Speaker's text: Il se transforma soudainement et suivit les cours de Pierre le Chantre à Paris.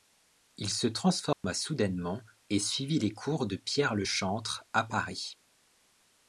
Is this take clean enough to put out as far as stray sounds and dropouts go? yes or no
no